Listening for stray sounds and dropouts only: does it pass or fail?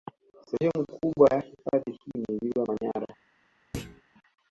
fail